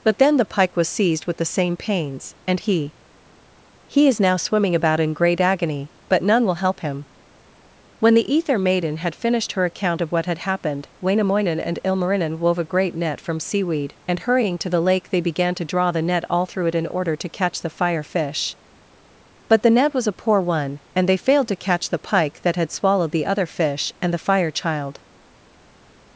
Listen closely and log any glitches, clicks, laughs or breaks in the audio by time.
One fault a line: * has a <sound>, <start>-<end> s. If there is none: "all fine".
all fine